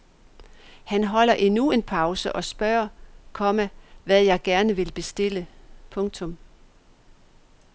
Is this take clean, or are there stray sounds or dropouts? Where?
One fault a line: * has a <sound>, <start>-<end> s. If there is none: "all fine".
all fine